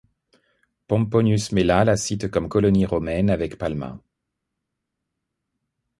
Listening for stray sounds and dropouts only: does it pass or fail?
pass